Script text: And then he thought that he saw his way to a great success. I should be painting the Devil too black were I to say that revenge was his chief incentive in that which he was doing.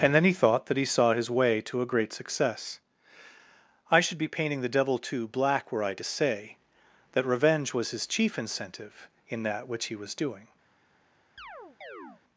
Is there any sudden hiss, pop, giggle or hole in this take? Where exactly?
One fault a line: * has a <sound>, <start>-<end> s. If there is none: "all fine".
* has a chirp, 11.4-12.2 s